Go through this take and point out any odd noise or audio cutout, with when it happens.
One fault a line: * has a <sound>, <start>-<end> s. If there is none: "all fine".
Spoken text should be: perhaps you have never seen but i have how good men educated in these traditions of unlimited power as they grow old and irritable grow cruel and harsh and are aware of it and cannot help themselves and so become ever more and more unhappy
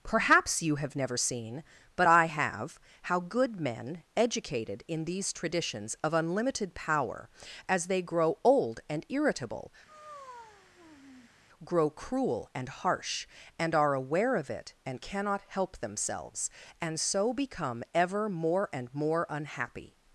* has a sigh, 9.9-11.3 s